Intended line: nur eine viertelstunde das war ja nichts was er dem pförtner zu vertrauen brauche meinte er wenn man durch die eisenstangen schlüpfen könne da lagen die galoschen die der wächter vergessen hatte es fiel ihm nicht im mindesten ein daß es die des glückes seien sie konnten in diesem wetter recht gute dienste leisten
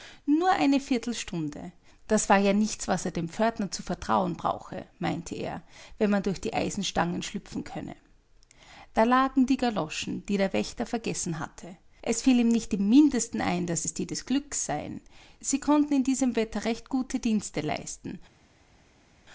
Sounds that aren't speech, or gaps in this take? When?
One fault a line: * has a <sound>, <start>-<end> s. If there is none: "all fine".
all fine